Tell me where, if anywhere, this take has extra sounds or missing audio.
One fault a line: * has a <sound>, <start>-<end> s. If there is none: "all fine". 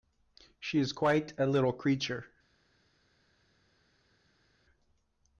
all fine